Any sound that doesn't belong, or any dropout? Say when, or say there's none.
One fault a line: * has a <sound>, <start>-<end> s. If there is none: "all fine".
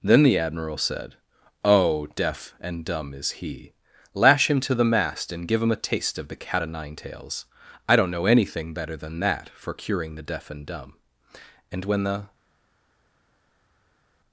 all fine